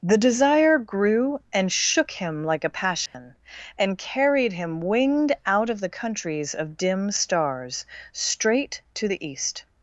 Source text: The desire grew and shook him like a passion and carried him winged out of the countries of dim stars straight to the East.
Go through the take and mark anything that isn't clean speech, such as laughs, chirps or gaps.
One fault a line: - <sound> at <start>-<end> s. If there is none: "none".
- dropout at 3.1-3.1 s